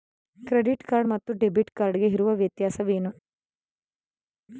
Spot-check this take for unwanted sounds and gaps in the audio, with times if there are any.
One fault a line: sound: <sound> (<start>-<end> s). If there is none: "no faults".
no faults